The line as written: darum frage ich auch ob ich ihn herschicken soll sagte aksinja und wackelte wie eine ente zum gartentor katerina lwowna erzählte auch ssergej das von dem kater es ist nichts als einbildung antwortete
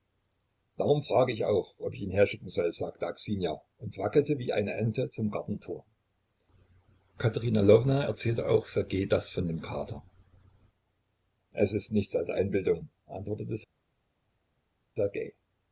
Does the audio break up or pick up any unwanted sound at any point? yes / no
no